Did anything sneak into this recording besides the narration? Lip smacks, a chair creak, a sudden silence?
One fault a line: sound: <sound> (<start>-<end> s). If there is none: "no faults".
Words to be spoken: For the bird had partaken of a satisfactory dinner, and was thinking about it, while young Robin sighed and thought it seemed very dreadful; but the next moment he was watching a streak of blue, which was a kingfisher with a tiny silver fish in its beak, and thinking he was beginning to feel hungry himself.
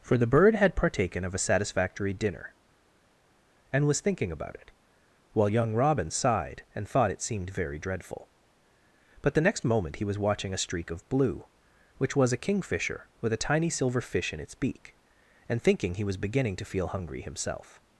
no faults